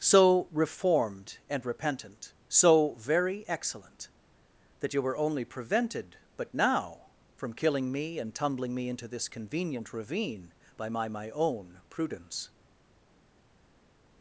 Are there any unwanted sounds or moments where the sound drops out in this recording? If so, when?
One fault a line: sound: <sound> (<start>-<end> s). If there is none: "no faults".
no faults